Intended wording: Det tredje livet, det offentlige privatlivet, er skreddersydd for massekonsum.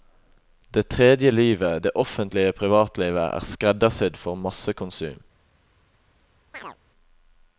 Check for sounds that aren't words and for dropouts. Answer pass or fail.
fail